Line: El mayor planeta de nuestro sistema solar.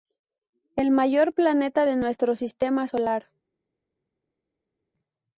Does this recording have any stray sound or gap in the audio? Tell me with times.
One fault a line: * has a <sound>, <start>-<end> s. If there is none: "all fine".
all fine